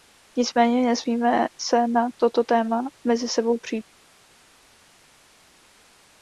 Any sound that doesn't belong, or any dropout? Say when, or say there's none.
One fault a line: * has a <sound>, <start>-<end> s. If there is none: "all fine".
all fine